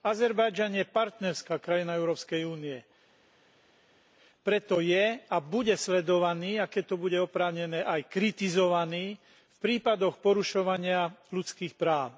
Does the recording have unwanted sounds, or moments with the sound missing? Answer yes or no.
no